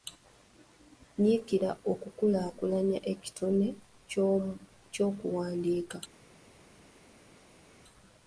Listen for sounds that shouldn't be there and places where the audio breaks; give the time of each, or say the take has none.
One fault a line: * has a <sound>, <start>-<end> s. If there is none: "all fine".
all fine